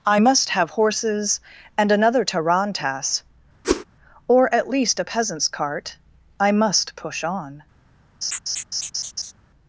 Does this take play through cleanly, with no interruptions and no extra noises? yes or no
no